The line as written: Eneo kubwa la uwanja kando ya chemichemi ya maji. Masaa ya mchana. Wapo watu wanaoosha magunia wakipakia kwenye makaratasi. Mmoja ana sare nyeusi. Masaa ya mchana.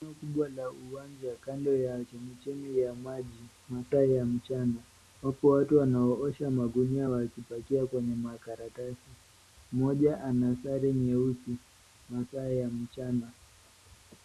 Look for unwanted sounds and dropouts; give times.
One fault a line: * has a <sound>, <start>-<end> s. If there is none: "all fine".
all fine